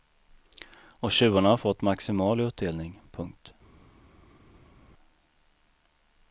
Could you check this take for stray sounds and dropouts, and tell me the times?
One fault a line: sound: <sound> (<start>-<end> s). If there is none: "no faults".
no faults